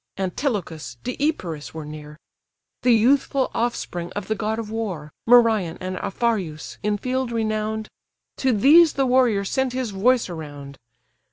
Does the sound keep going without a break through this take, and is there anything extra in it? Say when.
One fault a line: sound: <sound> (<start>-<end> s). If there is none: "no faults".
no faults